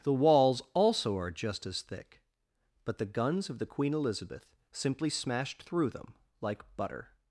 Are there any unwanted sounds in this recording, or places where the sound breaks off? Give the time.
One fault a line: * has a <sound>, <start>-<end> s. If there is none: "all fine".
all fine